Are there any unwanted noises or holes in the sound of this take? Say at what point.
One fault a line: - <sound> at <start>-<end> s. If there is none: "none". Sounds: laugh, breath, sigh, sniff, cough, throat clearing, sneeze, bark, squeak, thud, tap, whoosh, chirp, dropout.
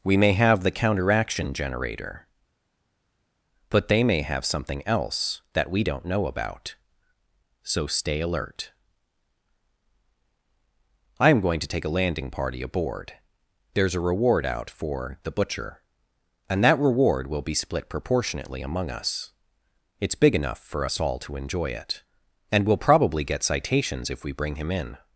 none